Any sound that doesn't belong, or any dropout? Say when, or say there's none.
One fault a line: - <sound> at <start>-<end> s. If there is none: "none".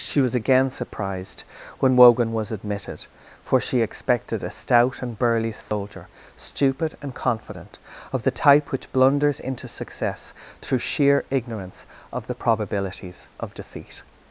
- dropout at 5.6-5.7 s